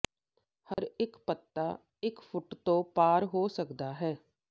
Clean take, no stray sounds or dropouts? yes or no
no